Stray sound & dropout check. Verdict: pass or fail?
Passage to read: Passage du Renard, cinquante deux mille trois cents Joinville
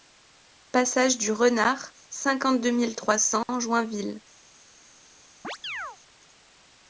fail